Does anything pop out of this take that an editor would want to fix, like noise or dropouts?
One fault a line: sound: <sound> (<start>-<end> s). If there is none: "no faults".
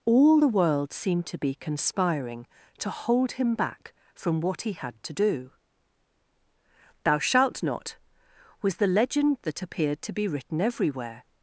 no faults